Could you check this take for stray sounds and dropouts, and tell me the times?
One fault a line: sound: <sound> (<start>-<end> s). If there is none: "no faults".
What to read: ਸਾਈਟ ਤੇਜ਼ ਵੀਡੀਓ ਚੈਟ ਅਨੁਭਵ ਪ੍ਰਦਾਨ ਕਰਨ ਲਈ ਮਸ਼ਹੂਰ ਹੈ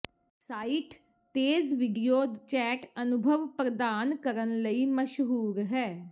no faults